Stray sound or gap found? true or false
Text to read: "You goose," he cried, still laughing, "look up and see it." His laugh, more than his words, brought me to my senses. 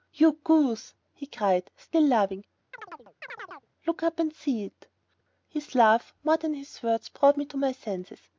true